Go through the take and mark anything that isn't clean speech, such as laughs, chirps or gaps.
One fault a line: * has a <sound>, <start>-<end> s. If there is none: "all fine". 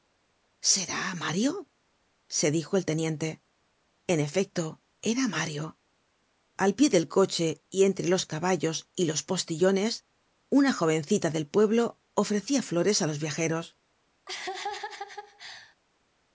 * has a laugh, 14.3-15.8 s